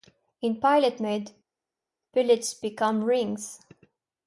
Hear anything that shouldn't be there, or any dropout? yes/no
no